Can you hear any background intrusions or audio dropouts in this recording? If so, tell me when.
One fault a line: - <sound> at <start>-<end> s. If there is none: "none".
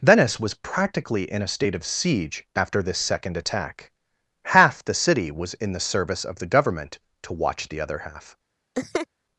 - laugh at 8.7-9.1 s